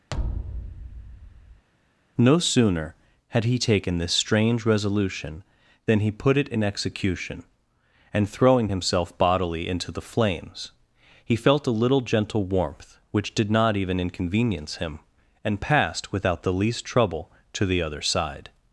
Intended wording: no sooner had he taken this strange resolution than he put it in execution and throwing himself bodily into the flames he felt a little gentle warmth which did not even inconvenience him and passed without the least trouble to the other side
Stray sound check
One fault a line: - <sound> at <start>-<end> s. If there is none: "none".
- thud at 0.1-1.6 s